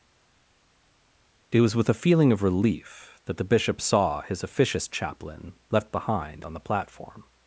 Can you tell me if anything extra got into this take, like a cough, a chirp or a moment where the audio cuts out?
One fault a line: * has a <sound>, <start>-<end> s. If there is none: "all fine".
all fine